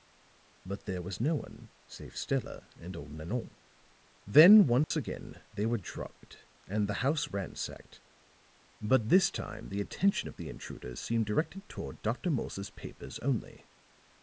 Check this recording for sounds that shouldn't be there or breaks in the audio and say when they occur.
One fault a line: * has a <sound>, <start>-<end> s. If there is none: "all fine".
* has a dropout, 4.8-4.9 s